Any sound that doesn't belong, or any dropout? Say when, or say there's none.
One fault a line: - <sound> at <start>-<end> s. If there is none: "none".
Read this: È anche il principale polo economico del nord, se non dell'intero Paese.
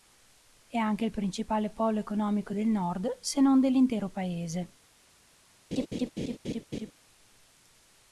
- laugh at 5.7-6.9 s